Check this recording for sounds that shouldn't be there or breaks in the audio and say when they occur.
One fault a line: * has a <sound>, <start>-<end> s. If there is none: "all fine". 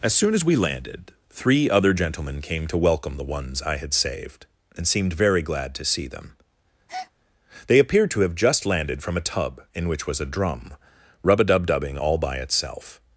* has a breath, 6.9-7.1 s